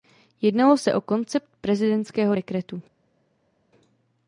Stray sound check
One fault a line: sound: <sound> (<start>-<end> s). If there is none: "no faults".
no faults